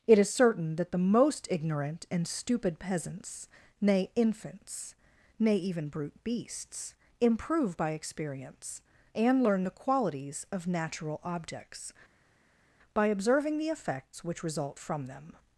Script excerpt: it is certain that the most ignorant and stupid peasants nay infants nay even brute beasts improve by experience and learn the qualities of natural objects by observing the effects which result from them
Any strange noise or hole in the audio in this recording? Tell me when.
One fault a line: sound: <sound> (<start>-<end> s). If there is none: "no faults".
no faults